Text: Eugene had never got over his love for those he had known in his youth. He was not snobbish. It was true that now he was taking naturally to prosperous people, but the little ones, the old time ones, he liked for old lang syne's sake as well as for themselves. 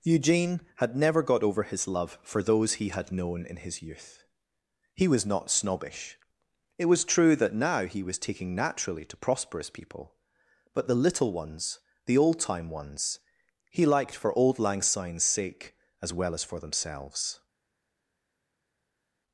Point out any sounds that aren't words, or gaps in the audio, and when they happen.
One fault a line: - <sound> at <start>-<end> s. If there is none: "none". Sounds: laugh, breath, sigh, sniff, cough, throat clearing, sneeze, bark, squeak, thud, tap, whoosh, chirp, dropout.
none